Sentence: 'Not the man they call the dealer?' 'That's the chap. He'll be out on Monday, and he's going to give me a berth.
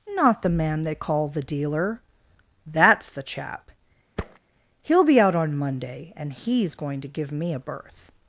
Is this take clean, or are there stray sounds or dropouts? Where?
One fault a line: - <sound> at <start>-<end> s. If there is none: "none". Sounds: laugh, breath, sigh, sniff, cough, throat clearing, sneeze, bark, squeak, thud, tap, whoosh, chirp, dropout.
- thud at 4.2-4.4 s